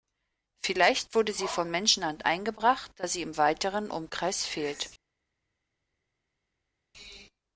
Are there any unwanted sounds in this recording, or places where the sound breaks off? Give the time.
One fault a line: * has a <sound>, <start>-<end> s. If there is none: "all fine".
all fine